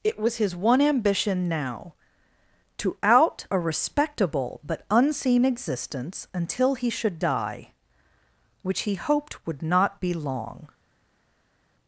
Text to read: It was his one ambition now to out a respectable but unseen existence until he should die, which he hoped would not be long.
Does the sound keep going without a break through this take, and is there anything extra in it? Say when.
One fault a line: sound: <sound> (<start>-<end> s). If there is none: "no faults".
no faults